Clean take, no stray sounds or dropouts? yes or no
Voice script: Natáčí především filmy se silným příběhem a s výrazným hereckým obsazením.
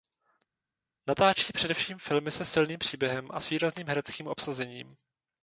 yes